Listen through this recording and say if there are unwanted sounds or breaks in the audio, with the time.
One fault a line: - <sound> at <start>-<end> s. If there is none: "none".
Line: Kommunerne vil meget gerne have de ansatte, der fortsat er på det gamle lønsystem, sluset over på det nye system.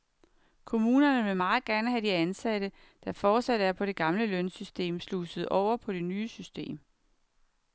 none